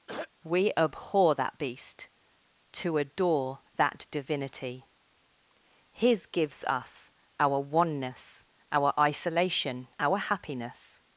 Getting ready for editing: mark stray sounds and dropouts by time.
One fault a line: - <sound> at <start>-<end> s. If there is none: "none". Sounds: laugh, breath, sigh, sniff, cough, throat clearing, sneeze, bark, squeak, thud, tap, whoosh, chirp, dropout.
- throat clearing at 0.1-0.3 s